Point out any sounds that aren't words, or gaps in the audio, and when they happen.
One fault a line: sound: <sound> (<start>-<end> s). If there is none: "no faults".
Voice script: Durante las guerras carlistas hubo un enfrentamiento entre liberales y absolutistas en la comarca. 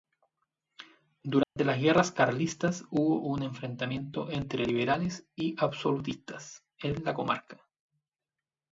sound: dropout (1.4-1.6 s)